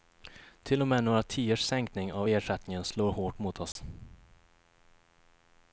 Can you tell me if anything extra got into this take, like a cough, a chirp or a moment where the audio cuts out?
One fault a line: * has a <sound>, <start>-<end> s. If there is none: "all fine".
* has a dropout, 3.7-3.8 s